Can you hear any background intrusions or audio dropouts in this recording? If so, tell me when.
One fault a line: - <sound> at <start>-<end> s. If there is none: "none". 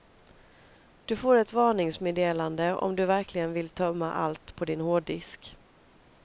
none